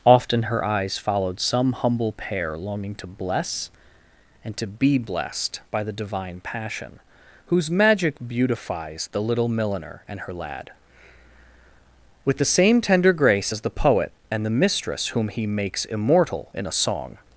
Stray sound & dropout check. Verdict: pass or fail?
pass